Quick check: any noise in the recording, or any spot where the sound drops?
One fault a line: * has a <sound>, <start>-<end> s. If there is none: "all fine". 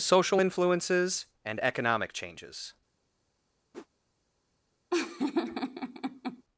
* has a whoosh, 3.7-3.9 s
* has a laugh, 4.9-6.4 s